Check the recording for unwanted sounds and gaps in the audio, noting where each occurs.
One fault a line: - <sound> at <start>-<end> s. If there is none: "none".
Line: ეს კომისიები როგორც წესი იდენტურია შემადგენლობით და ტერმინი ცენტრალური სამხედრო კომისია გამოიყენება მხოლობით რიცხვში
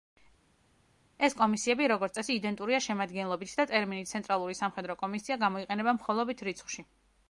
none